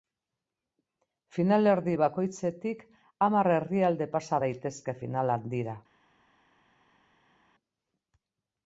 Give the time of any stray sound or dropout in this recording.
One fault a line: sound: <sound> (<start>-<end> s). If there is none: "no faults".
no faults